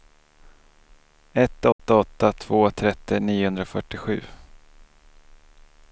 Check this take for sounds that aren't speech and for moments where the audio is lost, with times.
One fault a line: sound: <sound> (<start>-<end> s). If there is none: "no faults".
sound: dropout (1.7-1.8 s)